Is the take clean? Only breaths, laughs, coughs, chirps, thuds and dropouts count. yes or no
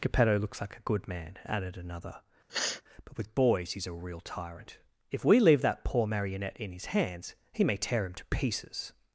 no